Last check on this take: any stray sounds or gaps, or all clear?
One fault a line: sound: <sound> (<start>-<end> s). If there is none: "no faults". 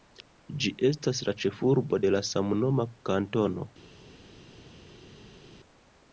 no faults